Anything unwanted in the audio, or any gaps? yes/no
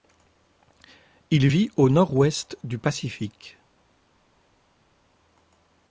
no